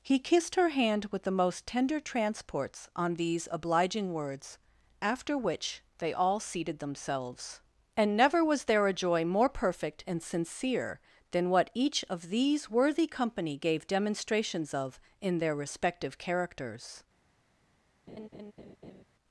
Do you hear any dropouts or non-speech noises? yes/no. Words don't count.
yes